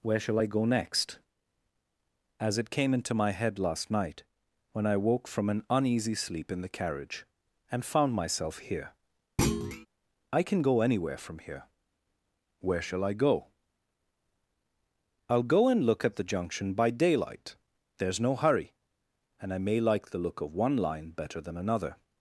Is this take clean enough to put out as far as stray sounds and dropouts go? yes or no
no